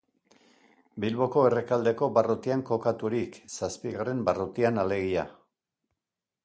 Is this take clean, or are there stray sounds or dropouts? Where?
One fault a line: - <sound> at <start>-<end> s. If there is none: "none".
none